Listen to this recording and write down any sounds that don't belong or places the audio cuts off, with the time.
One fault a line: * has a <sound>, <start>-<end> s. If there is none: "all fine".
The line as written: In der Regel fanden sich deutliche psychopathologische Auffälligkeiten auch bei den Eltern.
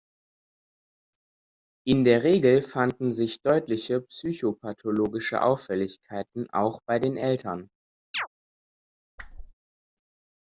* has a chirp, 8.1-8.3 s
* has a whoosh, 9.2-9.5 s